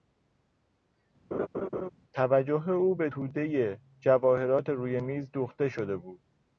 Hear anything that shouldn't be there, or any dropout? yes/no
yes